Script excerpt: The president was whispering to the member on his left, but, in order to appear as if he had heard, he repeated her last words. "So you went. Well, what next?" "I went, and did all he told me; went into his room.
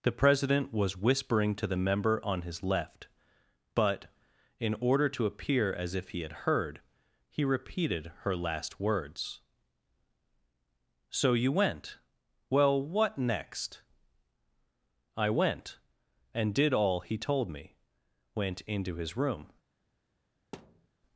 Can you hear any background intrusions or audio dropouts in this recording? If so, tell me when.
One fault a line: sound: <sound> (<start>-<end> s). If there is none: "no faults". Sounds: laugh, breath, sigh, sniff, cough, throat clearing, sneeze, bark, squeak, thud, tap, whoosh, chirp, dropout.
sound: thud (20.5-20.9 s)